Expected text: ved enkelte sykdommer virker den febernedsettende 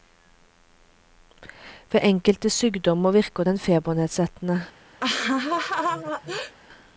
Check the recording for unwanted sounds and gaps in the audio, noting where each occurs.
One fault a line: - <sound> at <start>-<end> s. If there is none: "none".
- laugh at 5.0-6.5 s